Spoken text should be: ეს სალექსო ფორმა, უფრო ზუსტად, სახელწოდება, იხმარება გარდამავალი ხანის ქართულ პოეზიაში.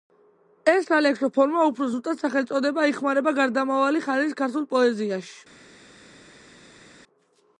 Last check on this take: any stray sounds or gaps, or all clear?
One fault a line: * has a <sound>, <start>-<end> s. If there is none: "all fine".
all fine